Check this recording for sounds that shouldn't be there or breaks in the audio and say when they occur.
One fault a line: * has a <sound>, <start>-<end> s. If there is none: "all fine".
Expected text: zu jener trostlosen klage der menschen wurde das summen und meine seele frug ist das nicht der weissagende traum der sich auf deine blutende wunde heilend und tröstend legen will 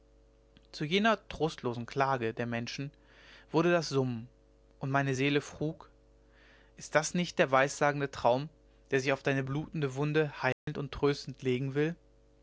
* has a dropout, 10.5-10.7 s